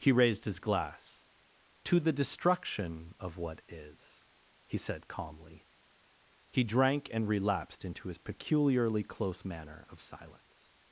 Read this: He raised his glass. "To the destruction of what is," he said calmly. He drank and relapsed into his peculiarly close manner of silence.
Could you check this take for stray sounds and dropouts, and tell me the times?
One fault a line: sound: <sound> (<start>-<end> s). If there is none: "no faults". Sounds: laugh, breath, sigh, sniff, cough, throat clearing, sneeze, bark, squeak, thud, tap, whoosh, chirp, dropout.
no faults